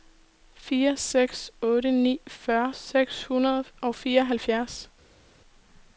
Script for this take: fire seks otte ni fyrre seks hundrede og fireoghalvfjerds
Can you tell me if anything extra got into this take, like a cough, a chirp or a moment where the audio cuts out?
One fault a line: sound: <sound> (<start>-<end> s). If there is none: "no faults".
no faults